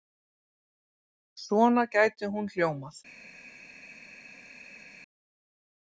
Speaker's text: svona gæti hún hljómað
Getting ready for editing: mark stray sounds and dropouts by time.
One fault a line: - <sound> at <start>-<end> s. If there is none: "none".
none